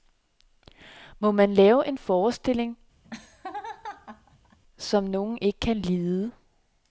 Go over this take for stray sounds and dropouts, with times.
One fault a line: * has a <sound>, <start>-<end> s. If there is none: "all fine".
* has a laugh, 3.0-4.6 s